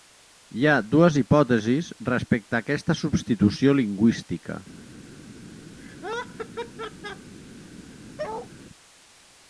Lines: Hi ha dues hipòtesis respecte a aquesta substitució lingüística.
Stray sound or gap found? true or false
true